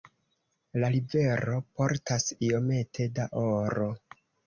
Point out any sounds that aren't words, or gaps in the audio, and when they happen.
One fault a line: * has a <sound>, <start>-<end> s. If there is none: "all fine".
all fine